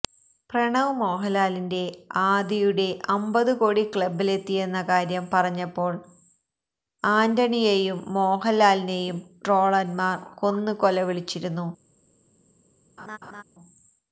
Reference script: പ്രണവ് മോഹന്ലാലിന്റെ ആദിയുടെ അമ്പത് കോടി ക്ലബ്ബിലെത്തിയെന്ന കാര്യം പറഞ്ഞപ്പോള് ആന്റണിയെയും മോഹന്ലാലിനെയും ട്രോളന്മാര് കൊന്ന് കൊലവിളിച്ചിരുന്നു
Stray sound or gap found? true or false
true